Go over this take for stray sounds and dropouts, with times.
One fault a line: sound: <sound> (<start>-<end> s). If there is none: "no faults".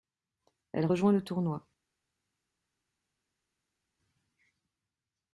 no faults